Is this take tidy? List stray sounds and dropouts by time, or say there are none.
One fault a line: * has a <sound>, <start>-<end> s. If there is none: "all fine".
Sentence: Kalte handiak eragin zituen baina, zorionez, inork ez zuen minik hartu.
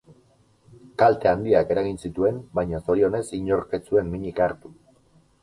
all fine